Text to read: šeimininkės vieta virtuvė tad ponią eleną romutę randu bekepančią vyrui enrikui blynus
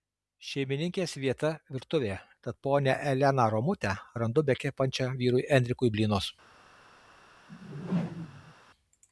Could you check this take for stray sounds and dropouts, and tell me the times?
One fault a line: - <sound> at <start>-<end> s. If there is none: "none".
- whoosh at 7.5-8.5 s